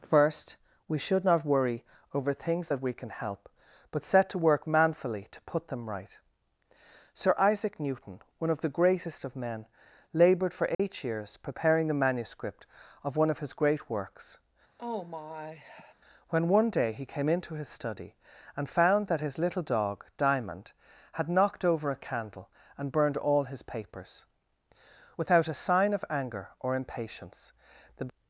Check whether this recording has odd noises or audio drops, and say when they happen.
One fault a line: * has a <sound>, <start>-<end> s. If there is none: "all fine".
* has a dropout, 10.7-10.8 s
* has a sigh, 14.8-15.9 s